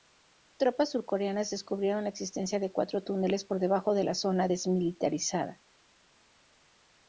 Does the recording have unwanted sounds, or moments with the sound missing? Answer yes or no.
no